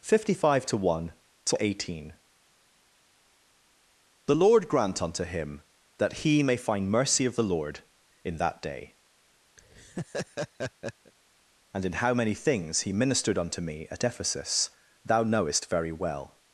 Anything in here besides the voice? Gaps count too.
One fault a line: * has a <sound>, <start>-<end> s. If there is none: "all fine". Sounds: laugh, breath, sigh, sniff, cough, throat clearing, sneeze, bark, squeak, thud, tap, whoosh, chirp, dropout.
* has a laugh, 9.6-11.1 s